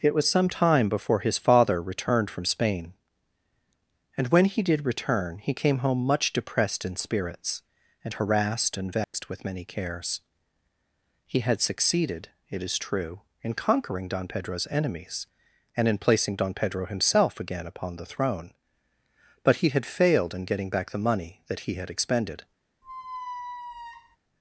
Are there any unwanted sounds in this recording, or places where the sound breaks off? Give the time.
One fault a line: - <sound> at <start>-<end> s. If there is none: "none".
- dropout at 9.0-9.1 s
- squeak at 22.8-24.2 s